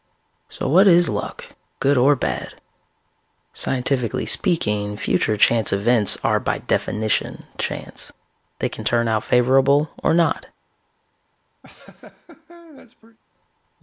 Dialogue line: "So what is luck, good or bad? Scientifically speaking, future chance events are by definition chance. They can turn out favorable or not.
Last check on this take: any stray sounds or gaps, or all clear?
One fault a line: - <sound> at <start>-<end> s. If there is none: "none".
- laugh at 11.6-13.2 s